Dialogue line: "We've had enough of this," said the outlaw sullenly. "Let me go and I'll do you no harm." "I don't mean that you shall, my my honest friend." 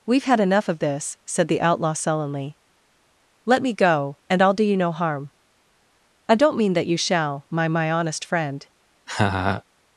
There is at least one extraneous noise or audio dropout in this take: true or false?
true